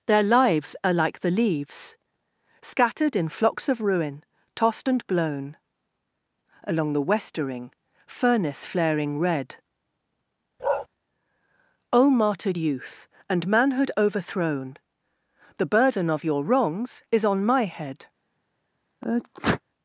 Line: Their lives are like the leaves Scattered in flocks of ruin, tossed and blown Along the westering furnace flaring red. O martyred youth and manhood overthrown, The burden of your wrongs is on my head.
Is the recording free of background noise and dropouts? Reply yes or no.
no